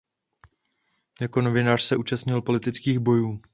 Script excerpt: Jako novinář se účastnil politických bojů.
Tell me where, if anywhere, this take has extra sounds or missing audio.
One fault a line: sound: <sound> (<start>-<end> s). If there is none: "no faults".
no faults